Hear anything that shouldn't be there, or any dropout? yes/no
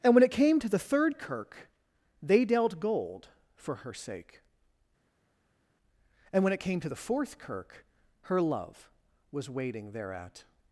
no